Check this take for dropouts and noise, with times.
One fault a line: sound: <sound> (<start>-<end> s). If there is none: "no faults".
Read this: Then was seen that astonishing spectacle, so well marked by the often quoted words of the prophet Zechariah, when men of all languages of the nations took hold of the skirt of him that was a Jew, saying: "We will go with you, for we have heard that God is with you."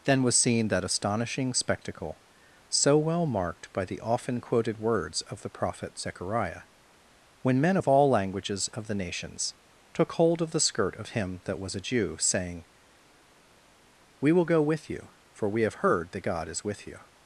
no faults